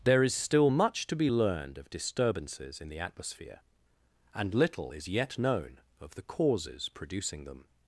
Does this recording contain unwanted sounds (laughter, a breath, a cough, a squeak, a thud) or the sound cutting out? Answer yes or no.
no